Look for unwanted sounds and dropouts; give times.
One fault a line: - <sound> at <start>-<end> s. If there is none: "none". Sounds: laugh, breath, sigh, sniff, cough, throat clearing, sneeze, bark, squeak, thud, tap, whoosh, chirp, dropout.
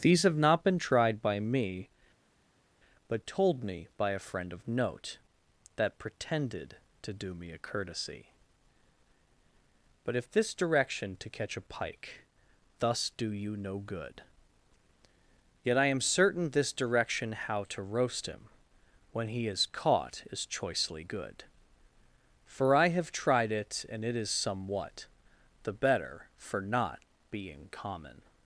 none